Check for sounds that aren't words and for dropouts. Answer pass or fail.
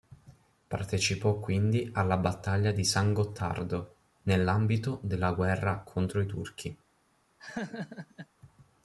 fail